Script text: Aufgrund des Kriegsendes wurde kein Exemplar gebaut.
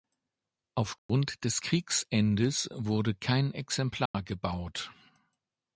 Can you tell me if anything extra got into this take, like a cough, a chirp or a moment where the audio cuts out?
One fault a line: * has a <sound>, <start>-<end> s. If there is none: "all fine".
* has a dropout, 1.0-1.1 s
* has a dropout, 4.1-4.1 s